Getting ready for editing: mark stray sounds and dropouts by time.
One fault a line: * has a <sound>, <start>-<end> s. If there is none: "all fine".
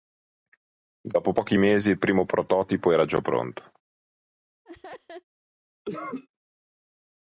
* has a laugh, 4.6-5.2 s
* has a cough, 5.8-6.3 s